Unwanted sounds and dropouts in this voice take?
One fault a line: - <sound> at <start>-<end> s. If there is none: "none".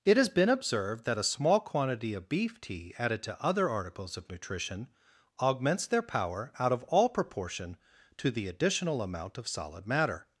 none